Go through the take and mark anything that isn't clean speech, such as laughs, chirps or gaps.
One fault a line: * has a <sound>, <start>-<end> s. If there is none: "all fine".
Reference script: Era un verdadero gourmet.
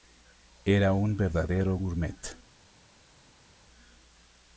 all fine